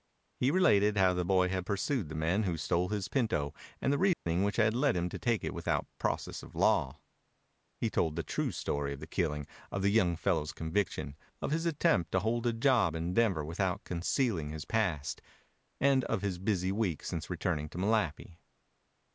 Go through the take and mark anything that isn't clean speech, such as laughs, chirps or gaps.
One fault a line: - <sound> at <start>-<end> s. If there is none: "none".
- dropout at 4.1-4.3 s